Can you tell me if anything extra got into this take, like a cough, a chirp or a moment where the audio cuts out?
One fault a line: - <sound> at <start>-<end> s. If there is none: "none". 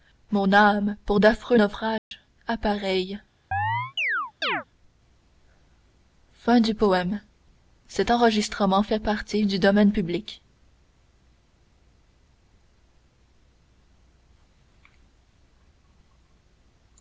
- dropout at 2.0-2.1 s
- chirp at 3.5-4.6 s